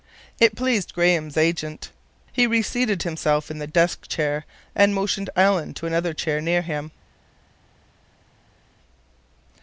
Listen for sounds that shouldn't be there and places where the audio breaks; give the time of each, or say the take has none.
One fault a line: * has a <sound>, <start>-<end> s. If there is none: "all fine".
all fine